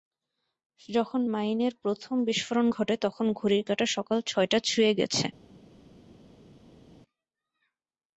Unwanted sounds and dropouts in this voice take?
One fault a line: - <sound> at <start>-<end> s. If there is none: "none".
none